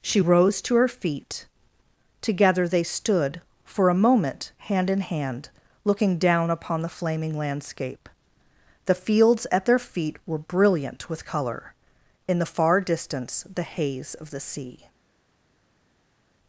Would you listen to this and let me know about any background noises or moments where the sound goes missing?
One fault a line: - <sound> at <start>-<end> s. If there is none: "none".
none